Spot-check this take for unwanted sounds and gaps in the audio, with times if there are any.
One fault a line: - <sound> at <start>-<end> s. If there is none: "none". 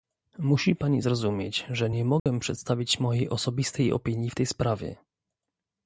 - dropout at 2.2-2.3 s